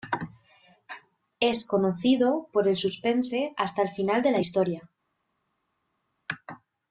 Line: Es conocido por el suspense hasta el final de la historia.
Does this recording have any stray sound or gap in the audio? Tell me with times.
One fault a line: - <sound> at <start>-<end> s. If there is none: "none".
none